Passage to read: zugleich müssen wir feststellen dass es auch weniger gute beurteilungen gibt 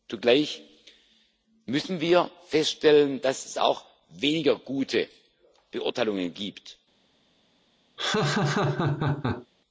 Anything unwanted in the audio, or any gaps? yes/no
yes